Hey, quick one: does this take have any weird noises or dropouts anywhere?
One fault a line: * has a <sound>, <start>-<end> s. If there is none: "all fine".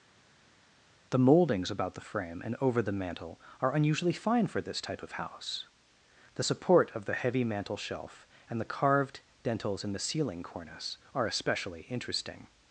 all fine